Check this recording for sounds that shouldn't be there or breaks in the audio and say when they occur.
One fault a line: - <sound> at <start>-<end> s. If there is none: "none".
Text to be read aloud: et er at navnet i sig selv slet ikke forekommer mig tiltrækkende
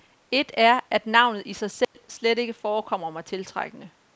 - dropout at 1.8-1.9 s